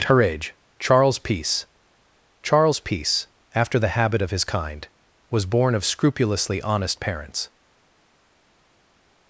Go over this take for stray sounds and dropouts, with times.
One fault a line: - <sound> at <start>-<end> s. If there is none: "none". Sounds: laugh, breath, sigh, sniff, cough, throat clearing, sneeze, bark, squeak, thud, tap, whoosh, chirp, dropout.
none